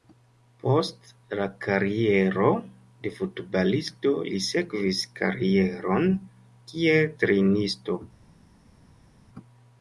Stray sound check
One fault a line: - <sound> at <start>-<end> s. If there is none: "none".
none